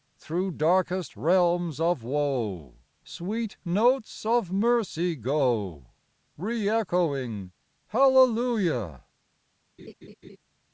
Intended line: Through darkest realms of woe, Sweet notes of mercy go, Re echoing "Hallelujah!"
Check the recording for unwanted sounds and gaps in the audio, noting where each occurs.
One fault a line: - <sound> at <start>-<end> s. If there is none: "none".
- laugh at 9.8-10.4 s